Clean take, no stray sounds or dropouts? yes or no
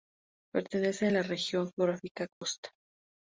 no